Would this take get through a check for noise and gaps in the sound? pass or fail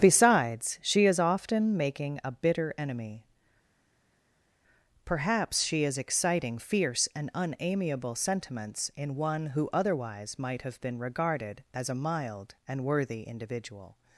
pass